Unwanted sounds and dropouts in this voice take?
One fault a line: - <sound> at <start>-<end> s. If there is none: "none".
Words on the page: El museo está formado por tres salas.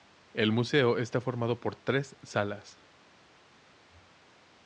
none